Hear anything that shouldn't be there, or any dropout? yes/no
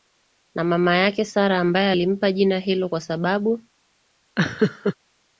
yes